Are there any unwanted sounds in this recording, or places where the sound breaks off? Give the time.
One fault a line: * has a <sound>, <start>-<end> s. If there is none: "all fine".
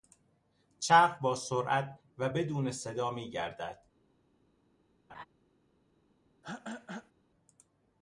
* has a laugh, 5.1-5.2 s
* has a throat clearing, 6.4-7.1 s